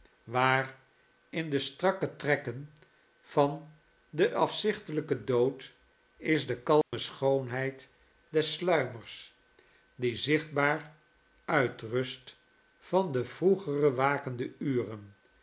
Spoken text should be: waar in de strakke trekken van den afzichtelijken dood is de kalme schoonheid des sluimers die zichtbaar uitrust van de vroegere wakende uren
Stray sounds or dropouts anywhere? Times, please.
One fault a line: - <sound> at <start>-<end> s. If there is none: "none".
- dropout at 6.8-6.9 s